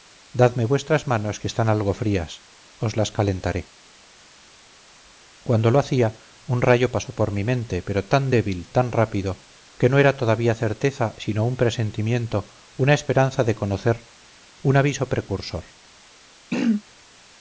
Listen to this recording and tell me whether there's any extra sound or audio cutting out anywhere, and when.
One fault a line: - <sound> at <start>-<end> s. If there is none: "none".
- throat clearing at 16.5-16.8 s